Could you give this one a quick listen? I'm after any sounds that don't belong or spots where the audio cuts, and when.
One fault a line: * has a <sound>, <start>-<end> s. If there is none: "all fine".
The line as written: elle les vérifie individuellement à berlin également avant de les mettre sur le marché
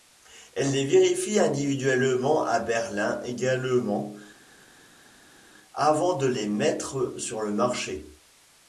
all fine